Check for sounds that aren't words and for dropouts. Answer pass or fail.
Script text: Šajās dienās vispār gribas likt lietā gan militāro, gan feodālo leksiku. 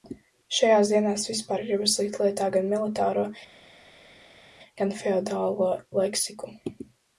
pass